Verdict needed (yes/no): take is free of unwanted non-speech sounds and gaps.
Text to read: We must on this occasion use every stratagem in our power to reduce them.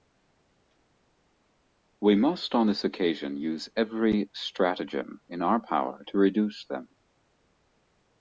yes